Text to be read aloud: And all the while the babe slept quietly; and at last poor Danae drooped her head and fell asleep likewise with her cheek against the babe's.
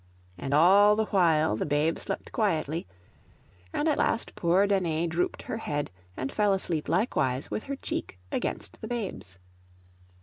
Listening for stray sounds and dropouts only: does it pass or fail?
pass